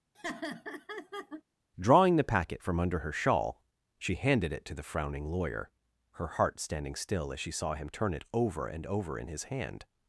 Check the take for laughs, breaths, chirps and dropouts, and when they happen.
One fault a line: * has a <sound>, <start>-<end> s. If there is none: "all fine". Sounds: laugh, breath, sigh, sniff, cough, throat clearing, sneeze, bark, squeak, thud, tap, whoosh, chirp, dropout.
* has a laugh, 0.1-1.4 s